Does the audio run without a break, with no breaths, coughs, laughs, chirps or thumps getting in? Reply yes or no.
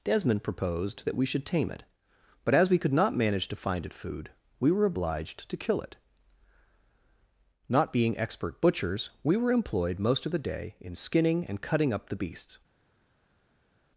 yes